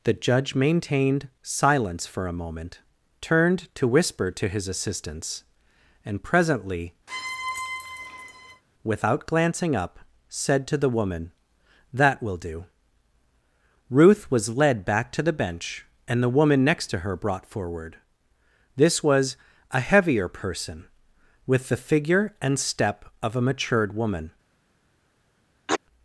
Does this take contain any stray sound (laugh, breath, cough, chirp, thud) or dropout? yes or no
yes